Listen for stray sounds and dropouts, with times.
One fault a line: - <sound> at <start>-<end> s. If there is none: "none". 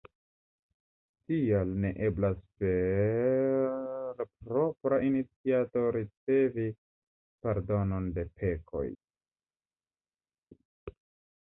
none